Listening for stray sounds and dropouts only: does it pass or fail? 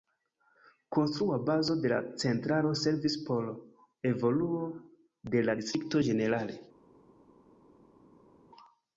pass